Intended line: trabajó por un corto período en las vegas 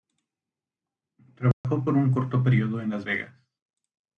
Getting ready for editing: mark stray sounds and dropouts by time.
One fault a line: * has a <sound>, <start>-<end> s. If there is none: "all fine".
* has a dropout, 1.5-1.6 s